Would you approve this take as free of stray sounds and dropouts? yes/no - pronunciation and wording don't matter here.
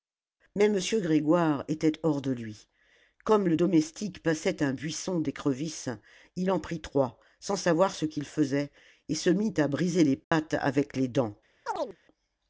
no